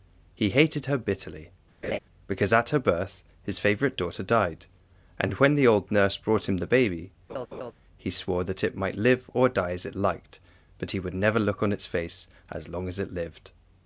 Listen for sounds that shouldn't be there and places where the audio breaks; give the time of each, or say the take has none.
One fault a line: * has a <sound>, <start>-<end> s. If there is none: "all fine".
* has a laugh, 1.8-2.0 s
* has a laugh, 7.3-7.7 s